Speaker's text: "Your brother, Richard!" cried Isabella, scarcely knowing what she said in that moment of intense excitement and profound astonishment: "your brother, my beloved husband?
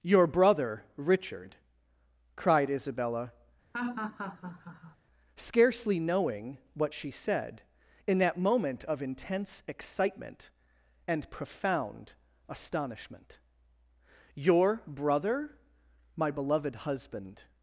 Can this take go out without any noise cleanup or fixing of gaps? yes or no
no